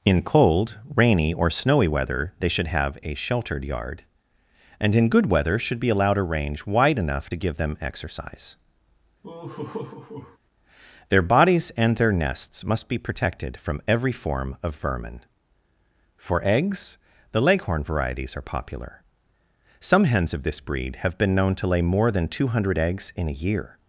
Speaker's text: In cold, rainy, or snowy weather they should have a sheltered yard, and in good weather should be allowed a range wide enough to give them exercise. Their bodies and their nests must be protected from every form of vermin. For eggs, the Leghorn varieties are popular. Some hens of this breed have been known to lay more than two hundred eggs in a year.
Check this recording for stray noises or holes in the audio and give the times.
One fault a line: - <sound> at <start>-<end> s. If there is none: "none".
- laugh at 9.2-10.4 s